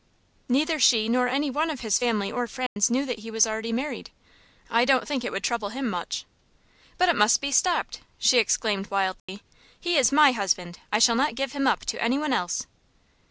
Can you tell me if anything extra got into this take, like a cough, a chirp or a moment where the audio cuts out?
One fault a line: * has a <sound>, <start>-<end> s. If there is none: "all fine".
* has a dropout, 2.7-2.8 s
* has a dropout, 9.2-9.3 s